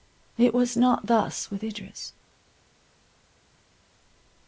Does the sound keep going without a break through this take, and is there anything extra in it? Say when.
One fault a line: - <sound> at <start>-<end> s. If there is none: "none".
none